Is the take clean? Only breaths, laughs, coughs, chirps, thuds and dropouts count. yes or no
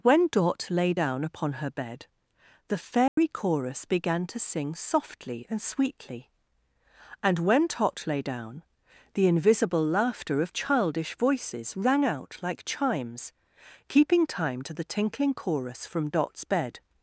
no